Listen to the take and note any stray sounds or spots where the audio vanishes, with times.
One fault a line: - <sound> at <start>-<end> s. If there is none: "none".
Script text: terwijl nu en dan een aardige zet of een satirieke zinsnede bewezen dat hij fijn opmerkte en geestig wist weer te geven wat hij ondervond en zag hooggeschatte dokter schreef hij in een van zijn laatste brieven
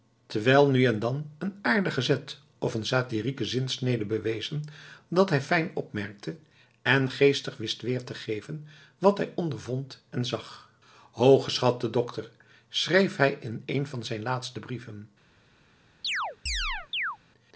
- chirp at 16.0-17.2 s